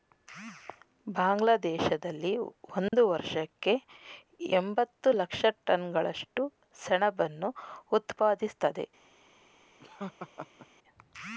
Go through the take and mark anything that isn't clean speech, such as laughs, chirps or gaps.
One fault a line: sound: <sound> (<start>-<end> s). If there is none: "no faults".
sound: dropout (2.9-2.9 s)
sound: laugh (9.8-10.7 s)